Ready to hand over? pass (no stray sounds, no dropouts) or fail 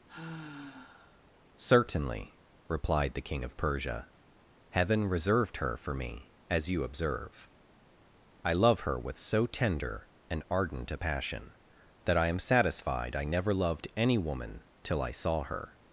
fail